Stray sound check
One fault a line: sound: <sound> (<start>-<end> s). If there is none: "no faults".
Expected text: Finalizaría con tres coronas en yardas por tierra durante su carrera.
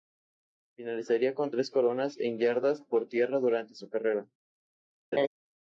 sound: laugh (5.1-5.3 s)